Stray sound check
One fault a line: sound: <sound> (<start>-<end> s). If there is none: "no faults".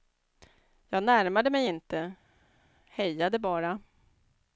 no faults